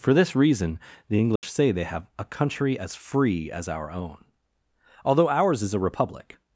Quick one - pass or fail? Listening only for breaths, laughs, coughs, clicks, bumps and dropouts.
fail